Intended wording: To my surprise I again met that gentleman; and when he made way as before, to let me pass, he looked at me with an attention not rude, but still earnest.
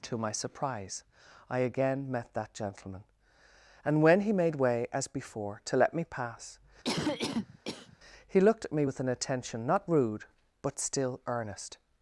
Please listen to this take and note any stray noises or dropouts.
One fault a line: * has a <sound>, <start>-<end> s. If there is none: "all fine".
* has a cough, 6.8-8.0 s